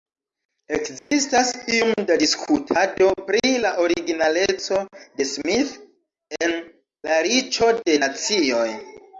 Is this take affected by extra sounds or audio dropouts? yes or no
yes